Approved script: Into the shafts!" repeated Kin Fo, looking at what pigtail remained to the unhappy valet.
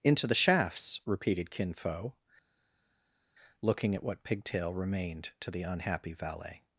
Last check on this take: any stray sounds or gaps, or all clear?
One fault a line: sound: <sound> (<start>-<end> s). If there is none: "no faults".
no faults